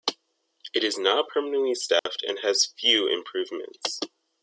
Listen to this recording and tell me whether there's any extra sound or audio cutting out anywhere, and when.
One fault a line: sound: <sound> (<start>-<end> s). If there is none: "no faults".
sound: dropout (2.0-2.1 s)